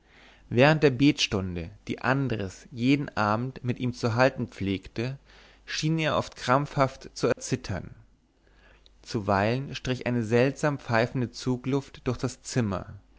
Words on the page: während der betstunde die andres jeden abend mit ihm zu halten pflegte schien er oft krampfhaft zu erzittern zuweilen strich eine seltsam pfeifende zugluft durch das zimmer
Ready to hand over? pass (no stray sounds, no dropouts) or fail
fail